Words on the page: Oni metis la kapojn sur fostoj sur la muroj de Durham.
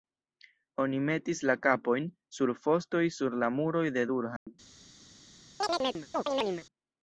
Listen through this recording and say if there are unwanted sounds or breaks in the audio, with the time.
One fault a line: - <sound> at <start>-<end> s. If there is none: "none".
- dropout at 4.4-4.5 s
- chirp at 5.6-6.7 s